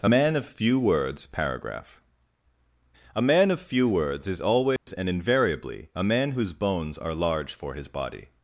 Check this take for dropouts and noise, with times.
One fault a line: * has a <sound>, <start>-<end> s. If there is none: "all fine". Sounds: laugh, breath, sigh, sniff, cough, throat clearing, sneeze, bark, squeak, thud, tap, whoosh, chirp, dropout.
* has a dropout, 4.8-4.9 s